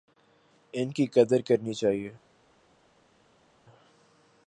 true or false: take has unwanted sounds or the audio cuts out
false